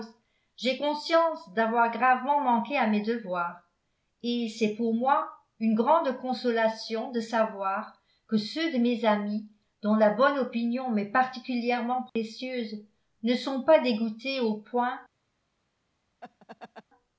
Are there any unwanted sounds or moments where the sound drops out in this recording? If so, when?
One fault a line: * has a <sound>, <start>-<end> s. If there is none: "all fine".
* has a dropout, 12.1-12.2 s
* has a laugh, 16.2-16.8 s